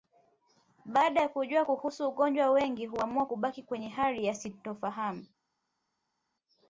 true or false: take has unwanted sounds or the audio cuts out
false